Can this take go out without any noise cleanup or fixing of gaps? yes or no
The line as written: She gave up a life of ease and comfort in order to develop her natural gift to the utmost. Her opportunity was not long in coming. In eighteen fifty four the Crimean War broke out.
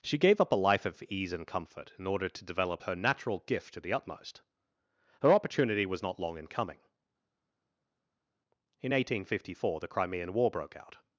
yes